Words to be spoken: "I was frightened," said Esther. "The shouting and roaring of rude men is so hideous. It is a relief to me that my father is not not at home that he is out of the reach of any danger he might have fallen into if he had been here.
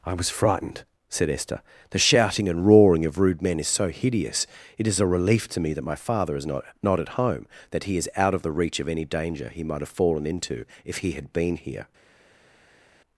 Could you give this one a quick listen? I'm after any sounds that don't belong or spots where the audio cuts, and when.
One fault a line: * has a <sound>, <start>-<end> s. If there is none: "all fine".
all fine